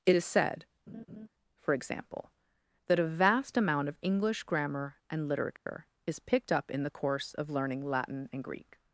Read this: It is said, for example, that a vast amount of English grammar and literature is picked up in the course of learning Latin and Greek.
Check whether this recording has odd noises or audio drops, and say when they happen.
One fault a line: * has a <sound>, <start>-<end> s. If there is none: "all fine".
* has a laugh, 0.9-1.3 s
* has a dropout, 5.6-5.7 s